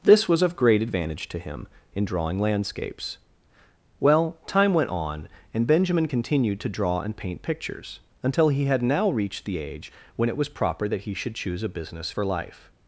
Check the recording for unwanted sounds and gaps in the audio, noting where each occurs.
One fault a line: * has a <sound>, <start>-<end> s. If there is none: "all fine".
all fine